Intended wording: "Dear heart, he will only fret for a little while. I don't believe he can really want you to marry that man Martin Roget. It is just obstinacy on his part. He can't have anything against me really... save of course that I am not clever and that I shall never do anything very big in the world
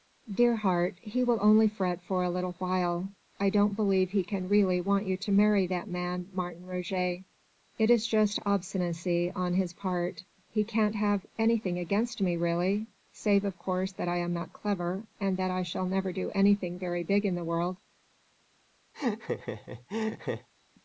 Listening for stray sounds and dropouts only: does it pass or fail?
fail